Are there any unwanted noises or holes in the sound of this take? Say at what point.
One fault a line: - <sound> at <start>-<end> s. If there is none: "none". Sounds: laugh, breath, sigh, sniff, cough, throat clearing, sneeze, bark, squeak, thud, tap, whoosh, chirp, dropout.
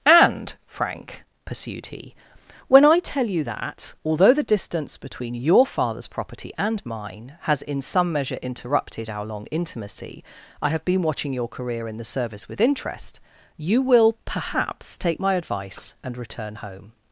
none